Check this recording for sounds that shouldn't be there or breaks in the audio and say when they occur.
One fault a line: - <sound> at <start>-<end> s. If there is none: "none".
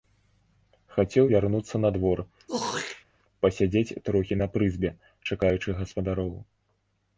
- throat clearing at 2.5-3.0 s